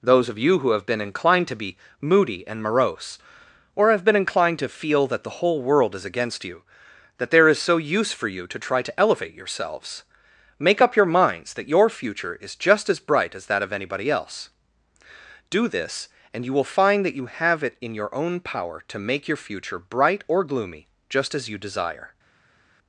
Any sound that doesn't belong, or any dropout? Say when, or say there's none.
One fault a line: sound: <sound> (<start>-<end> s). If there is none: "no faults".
no faults